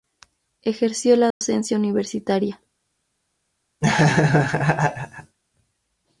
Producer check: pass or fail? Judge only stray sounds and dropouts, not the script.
fail